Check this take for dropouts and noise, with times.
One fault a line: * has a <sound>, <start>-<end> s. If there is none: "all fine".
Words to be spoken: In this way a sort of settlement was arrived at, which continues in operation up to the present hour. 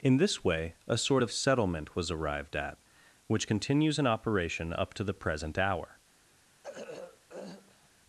* has a throat clearing, 6.6-7.9 s